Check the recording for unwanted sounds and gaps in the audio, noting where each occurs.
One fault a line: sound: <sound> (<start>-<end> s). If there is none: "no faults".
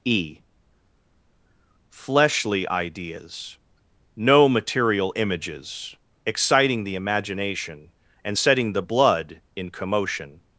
no faults